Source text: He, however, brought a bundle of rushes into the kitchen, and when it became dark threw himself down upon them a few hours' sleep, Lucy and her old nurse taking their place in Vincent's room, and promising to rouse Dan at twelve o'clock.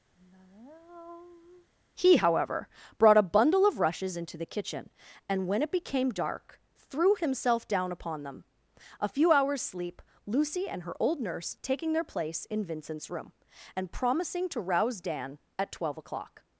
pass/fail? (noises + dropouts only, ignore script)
fail